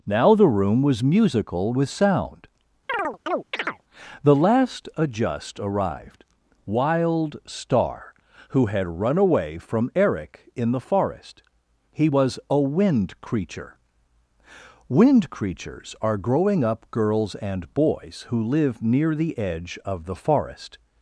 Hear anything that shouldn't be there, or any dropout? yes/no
yes